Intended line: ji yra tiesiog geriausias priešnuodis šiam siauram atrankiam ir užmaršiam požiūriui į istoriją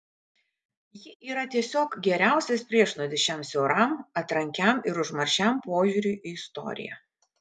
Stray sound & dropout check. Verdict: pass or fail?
pass